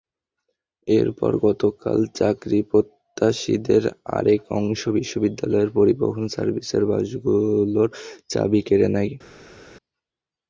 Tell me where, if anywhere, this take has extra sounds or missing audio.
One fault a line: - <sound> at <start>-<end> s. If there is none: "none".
none